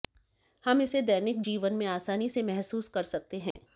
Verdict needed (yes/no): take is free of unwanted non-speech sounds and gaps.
no